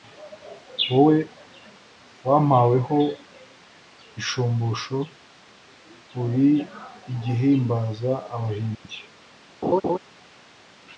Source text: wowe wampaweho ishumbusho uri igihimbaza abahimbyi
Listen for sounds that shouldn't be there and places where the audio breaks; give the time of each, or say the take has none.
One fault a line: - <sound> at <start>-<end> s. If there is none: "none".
- dropout at 8.7-8.8 s
- laugh at 9.6-10.0 s